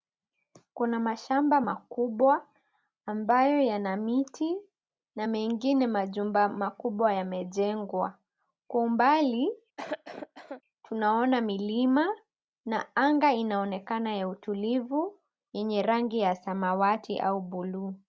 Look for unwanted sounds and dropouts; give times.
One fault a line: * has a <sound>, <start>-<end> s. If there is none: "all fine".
* has a cough, 9.8-10.6 s